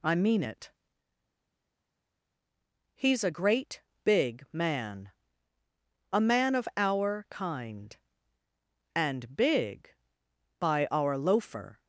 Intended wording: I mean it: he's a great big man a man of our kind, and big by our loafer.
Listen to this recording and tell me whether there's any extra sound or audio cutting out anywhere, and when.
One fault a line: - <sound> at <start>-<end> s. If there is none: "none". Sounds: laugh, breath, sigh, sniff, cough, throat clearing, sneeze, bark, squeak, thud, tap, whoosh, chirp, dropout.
none